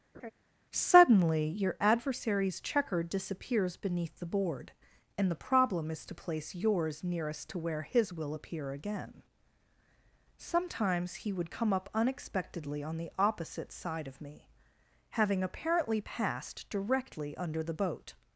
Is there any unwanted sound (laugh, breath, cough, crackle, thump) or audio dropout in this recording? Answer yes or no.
yes